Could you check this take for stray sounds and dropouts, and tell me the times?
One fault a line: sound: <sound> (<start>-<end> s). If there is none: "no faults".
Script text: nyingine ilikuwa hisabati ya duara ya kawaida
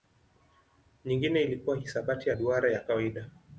no faults